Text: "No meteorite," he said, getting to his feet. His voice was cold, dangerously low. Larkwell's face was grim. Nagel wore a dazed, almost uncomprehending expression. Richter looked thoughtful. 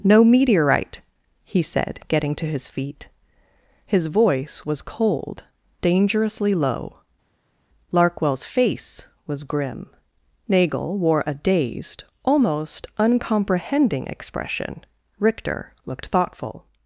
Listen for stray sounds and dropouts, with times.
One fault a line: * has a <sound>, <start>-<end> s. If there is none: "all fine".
all fine